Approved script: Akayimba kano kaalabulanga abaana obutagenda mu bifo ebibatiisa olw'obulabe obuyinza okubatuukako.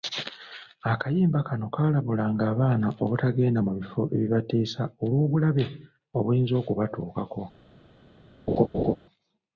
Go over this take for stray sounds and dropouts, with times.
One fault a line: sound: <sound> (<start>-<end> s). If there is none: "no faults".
sound: laugh (8.5-9.0 s)